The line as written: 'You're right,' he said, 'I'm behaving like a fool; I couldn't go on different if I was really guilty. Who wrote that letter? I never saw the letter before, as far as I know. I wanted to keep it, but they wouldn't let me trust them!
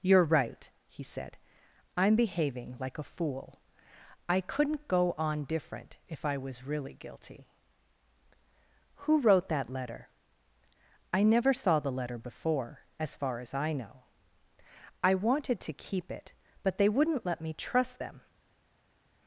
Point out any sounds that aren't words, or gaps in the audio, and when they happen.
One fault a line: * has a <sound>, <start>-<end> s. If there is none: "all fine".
all fine